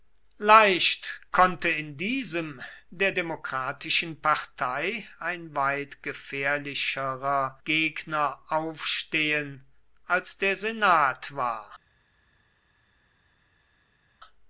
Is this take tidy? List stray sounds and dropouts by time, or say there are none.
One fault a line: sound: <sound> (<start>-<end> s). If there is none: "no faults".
no faults